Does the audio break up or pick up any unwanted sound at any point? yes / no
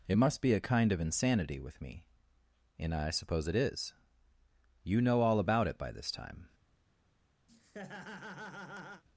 yes